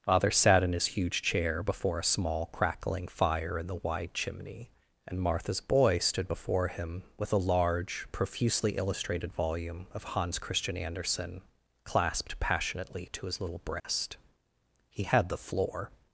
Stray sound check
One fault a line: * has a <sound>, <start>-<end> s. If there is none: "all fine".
* has a dropout, 13.8-13.8 s